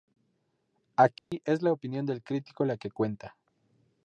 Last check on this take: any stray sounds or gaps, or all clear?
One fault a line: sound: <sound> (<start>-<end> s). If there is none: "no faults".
sound: dropout (1.2-1.3 s)